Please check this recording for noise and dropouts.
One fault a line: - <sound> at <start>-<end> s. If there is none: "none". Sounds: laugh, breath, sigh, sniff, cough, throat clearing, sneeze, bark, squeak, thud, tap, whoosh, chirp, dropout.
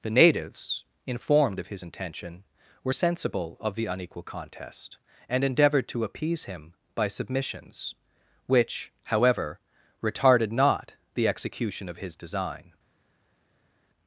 none